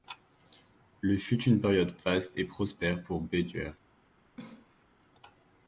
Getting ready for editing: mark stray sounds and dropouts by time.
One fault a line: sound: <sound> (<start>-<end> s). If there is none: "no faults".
sound: cough (4.4-4.9 s)